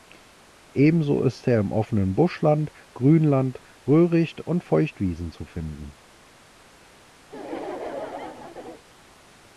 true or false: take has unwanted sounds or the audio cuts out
true